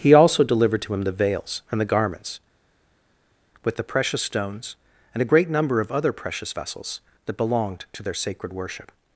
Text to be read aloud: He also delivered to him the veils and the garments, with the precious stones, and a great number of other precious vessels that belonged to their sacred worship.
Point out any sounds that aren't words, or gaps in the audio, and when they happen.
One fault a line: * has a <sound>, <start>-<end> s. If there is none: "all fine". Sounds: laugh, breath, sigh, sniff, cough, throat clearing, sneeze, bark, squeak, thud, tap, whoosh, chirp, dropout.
all fine